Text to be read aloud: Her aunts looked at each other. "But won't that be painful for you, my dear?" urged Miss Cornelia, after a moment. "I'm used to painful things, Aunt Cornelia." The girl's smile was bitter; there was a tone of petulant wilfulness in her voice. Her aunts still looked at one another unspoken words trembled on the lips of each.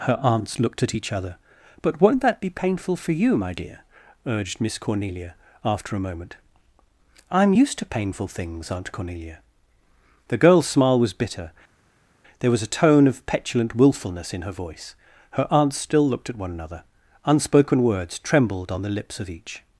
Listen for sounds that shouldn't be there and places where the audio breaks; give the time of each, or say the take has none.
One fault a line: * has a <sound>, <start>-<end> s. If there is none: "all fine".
all fine